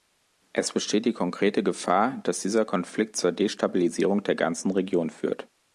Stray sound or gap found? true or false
false